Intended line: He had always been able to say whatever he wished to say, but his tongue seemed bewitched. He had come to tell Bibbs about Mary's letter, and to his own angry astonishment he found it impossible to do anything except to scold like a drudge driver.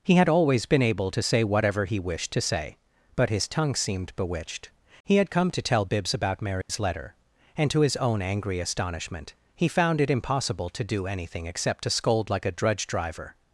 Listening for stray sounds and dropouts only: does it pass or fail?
fail